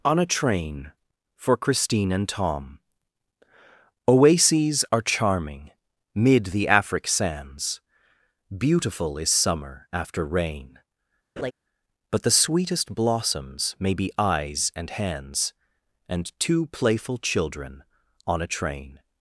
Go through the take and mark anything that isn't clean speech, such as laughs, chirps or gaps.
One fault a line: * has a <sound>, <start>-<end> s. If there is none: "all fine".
* has a laugh, 11.4-11.5 s